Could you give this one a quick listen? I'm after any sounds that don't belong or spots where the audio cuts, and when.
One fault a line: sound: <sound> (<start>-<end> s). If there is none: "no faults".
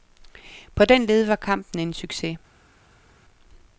no faults